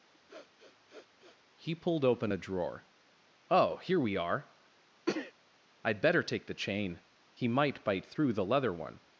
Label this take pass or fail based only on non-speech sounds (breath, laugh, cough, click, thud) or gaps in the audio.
fail